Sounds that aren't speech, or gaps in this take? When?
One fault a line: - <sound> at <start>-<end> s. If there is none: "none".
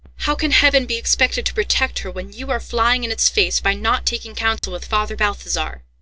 - dropout at 4.6-4.6 s